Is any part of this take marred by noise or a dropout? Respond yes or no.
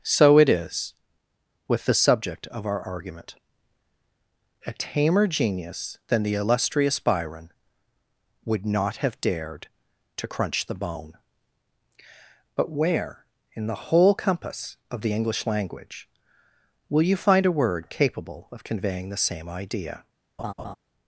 yes